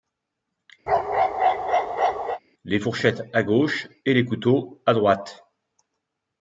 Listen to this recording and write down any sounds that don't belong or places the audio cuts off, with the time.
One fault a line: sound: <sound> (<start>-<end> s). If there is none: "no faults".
sound: bark (0.9-2.4 s)